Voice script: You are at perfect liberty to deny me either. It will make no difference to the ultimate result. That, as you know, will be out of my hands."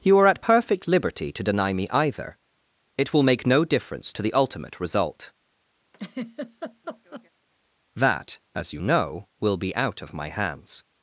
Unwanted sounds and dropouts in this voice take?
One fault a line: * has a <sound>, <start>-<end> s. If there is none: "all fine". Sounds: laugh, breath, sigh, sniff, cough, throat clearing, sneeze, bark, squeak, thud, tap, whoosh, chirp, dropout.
* has a laugh, 5.9-7.3 s